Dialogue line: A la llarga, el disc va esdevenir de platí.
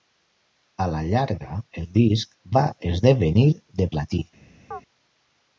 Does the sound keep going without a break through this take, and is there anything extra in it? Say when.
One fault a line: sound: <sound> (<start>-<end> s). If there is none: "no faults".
sound: chirp (4.7-4.8 s)